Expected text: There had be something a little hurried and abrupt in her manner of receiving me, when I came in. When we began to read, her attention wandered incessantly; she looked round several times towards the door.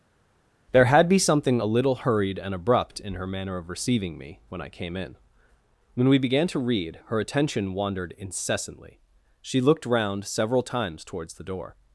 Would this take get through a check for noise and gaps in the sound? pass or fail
pass